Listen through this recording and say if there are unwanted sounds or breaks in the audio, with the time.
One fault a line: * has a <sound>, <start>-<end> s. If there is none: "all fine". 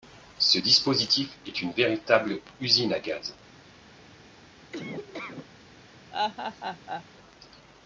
* has a laugh, 4.7-5.5 s
* has a laugh, 6.1-7.0 s